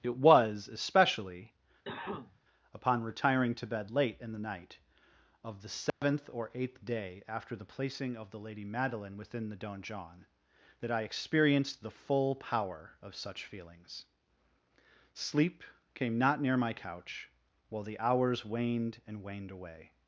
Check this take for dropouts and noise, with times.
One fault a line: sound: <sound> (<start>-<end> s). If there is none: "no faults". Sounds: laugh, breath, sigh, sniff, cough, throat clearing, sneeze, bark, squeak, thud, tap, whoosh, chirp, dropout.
sound: cough (1.8-2.4 s)
sound: dropout (5.9-6.0 s)